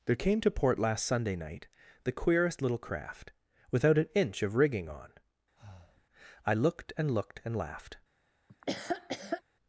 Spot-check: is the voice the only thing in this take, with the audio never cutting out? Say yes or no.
no